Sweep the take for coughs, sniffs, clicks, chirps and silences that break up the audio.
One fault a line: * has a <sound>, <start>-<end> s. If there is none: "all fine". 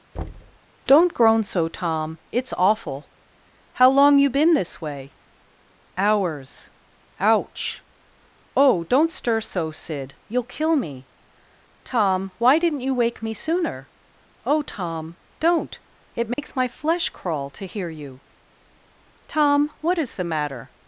* has a thud, 0.1-0.6 s
* has a dropout, 16.3-16.4 s